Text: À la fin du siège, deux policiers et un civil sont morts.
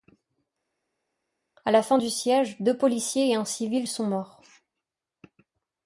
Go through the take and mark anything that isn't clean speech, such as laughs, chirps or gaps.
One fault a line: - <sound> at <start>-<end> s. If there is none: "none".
none